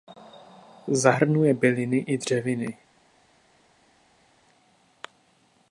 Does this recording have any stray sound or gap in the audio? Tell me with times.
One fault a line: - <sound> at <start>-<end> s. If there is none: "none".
none